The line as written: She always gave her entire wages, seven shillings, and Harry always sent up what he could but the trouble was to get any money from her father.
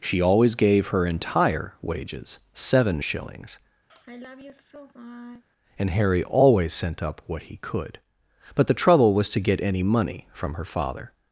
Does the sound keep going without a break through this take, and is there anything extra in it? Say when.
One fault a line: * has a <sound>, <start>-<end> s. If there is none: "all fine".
* has a sigh, 3.9-5.4 s